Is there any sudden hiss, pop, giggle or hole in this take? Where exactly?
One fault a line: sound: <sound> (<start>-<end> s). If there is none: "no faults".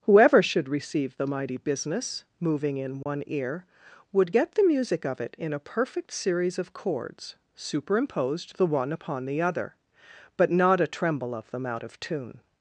sound: dropout (3.0-3.1 s)